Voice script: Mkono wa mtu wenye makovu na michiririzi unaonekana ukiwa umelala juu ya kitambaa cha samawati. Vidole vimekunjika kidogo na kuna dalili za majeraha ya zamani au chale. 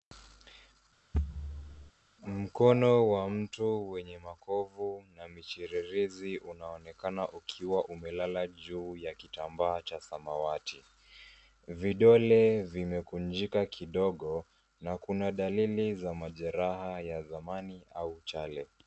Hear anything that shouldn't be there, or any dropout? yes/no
yes